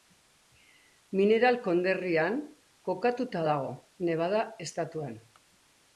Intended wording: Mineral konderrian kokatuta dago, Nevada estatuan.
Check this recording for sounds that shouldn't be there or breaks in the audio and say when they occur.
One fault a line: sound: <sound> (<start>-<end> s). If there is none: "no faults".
no faults